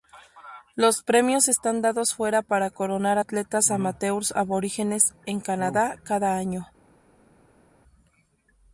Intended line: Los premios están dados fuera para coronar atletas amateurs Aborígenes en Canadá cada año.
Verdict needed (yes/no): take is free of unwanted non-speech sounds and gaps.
yes